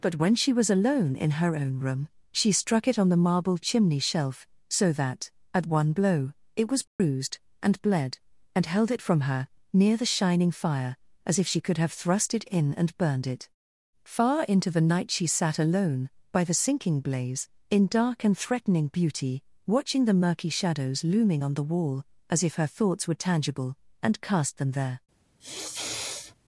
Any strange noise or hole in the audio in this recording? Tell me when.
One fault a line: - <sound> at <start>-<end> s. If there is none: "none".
- dropout at 6.9-7.0 s
- sniff at 25.4-26.3 s